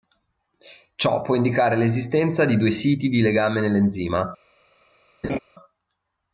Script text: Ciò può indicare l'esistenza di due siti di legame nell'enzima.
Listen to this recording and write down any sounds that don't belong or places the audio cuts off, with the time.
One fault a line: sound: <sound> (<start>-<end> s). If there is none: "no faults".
sound: laugh (5.2-5.4 s)